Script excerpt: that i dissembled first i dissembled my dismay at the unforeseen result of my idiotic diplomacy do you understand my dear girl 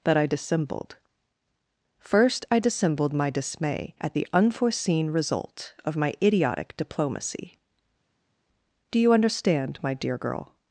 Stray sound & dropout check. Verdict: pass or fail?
pass